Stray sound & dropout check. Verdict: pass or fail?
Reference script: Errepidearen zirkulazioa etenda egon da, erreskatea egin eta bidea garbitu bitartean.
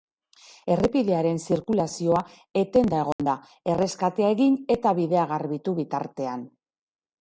fail